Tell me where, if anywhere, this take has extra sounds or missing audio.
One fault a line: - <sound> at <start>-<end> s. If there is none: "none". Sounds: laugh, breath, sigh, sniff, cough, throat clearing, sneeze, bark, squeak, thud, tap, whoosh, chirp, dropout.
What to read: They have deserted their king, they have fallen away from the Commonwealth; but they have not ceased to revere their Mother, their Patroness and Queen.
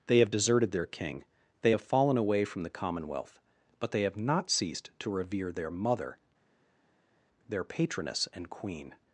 none